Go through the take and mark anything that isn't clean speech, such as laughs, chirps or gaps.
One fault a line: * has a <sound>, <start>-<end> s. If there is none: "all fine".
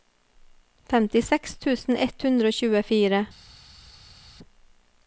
all fine